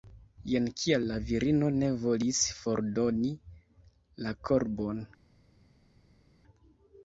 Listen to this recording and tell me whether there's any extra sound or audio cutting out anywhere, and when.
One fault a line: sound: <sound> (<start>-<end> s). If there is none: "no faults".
no faults